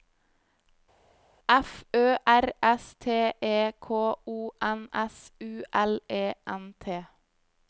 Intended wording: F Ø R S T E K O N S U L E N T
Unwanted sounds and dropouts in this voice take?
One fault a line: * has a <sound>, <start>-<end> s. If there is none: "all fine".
all fine